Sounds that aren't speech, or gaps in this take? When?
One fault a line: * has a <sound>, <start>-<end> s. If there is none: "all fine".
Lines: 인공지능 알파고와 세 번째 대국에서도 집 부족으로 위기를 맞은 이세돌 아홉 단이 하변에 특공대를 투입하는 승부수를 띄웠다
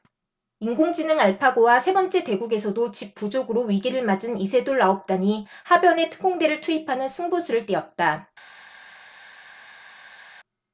all fine